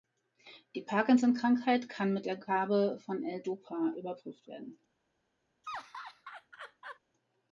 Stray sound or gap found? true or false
true